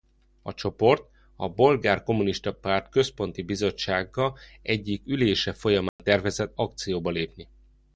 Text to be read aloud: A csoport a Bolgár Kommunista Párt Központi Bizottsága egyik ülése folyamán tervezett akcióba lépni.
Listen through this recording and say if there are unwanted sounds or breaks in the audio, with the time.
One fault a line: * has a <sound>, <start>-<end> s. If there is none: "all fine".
* has a dropout, 5.9-6.0 s